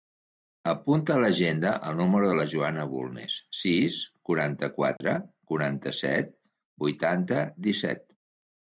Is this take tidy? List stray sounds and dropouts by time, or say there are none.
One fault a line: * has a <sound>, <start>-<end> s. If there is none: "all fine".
* has a dropout, 5.0-5.0 s